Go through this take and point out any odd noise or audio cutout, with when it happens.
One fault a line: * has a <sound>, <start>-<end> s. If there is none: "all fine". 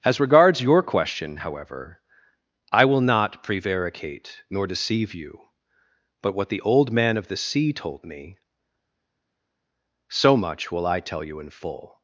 all fine